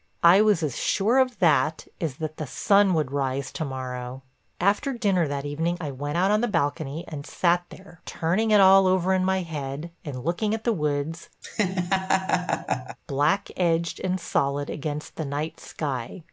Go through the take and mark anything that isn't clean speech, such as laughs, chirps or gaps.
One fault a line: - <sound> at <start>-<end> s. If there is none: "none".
- laugh at 11.4-13.0 s